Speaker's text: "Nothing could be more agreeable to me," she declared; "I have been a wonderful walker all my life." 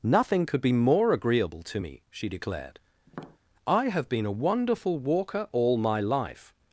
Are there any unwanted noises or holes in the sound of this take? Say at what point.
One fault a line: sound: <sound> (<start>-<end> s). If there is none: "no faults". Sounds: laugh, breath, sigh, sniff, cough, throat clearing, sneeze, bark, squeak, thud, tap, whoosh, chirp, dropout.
sound: tap (3.1-3.4 s)